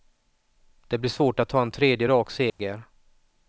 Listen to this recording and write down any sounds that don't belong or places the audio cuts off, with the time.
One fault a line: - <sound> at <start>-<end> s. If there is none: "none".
- dropout at 2.5-2.6 s